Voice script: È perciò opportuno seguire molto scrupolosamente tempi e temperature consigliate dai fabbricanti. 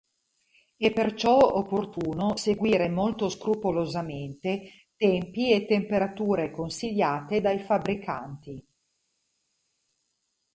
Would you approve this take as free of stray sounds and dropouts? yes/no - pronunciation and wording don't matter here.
yes